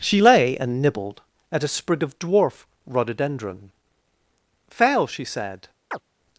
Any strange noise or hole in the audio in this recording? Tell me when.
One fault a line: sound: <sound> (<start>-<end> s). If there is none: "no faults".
sound: chirp (5.9-6.0 s)